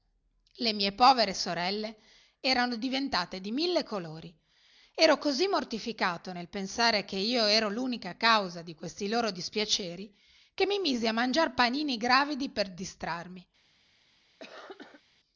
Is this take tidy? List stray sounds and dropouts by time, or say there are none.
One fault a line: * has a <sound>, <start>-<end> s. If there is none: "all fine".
* has a cough, 14.4-15.0 s